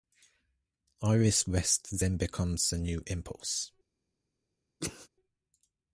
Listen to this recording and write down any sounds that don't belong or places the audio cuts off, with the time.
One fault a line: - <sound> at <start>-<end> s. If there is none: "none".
- sneeze at 4.8-5.1 s